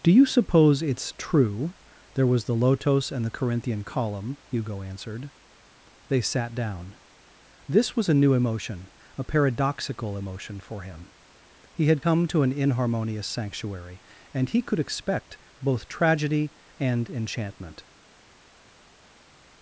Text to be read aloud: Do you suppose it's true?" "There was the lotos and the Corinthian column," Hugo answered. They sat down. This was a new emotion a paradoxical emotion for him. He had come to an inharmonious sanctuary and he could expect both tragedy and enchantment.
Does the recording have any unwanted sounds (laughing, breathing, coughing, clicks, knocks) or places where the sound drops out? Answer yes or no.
no